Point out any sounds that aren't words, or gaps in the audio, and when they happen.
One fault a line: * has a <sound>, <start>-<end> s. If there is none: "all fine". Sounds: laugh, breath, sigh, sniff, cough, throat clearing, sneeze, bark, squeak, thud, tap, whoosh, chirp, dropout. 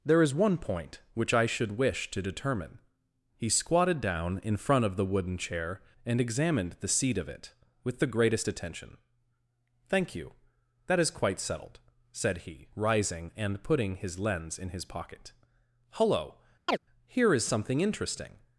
* has a chirp, 16.7-16.8 s